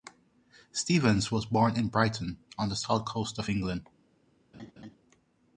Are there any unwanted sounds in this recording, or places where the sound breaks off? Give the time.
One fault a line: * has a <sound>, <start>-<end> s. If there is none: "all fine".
* has a laugh, 4.5-5.0 s